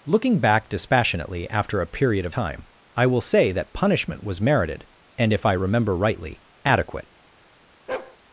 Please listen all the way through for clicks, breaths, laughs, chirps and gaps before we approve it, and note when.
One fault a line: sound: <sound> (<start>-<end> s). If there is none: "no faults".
sound: bark (7.9-8.2 s)